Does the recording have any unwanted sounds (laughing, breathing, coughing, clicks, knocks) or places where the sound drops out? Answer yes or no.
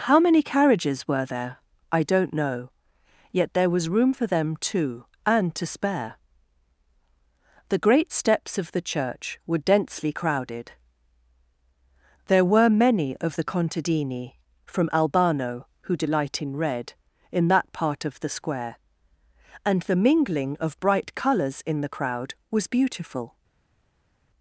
no